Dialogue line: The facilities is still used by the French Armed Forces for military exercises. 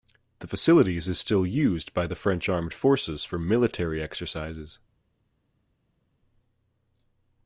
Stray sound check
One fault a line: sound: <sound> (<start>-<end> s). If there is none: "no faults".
no faults